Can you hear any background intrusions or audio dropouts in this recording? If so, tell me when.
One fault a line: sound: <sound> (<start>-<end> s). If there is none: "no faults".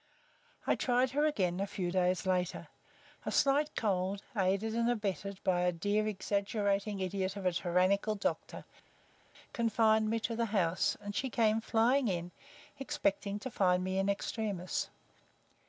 no faults